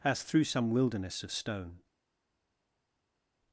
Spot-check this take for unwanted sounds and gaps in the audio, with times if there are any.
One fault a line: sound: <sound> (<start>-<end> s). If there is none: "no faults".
no faults